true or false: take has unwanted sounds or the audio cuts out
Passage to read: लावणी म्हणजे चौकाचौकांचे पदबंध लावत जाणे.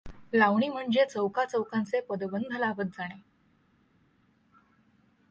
false